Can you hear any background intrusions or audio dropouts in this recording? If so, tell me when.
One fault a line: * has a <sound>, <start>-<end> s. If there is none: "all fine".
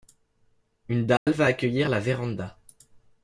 * has a dropout, 1.2-1.3 s